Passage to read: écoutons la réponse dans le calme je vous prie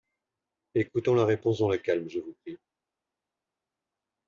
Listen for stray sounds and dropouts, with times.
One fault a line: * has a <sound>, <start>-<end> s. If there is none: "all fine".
all fine